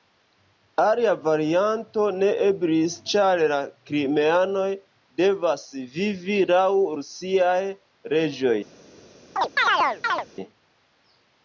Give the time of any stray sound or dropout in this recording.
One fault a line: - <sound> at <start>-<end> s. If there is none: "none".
- chirp at 9.4-10.3 s